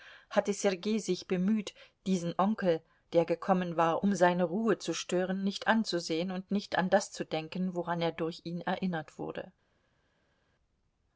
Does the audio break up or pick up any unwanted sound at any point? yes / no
no